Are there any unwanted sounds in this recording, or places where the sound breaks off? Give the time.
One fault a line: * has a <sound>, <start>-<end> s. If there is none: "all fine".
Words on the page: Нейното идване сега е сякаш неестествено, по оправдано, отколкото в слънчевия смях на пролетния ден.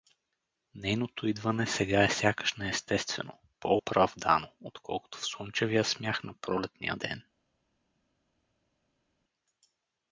all fine